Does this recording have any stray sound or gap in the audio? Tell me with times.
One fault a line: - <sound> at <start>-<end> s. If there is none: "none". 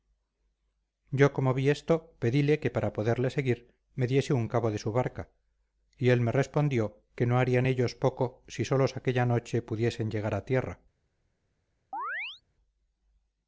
- chirp at 11.9-12.4 s